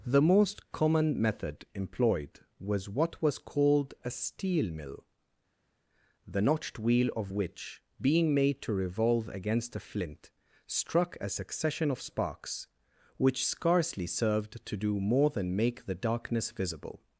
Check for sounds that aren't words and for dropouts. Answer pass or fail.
pass